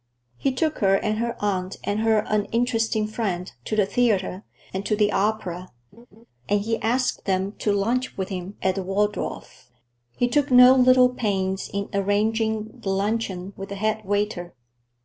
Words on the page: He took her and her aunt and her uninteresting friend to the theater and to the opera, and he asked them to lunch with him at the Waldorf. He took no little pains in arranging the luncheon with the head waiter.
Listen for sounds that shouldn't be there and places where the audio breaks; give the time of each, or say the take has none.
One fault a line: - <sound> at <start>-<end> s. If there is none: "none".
- laugh at 5.9-6.3 s